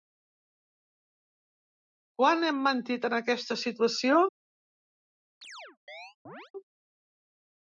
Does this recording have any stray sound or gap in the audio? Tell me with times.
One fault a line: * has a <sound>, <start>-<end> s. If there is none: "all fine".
* has a chirp, 5.4-6.5 s